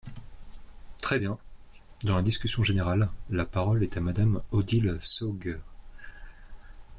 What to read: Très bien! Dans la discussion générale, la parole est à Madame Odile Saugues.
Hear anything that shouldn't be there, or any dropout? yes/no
no